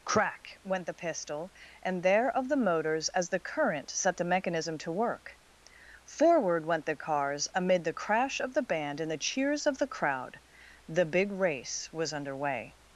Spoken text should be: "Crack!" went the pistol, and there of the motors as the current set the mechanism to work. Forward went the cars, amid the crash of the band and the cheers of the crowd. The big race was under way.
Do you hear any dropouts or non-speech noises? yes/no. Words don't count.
no